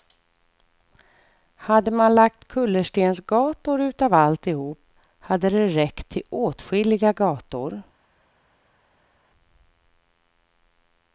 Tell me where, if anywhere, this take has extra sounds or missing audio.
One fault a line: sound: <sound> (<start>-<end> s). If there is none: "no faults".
no faults